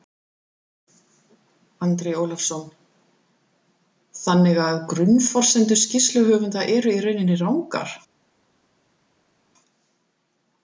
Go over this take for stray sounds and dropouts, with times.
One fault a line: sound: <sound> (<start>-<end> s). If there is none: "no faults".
no faults